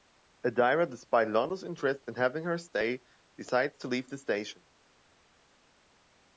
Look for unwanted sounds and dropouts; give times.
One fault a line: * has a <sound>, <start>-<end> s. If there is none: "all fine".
all fine